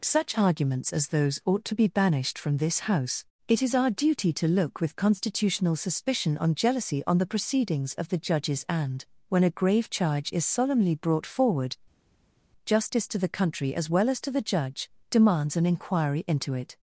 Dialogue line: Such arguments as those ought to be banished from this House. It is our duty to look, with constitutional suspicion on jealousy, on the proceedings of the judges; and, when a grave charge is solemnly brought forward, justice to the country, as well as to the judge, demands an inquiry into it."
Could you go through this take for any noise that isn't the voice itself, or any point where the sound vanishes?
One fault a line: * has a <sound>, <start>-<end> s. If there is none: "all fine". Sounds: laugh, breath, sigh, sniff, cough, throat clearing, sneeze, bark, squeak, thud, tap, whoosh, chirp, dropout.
all fine